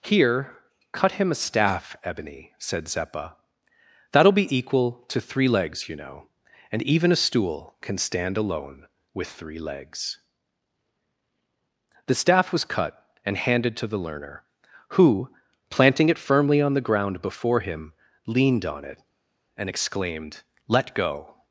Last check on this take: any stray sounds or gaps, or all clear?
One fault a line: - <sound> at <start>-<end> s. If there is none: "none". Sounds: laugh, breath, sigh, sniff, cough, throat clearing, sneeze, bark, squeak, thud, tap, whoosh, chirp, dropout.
none